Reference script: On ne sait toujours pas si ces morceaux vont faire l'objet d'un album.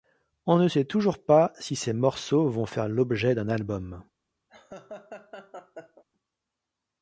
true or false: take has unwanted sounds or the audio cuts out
true